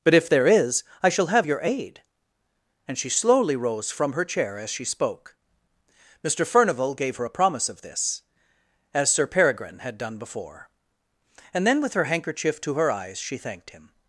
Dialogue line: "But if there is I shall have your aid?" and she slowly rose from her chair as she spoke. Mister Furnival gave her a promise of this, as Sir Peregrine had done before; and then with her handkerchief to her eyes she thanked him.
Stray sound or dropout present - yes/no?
no